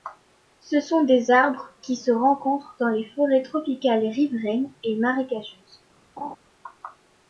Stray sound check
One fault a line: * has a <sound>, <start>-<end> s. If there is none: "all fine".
* has a laugh, 6.2-6.4 s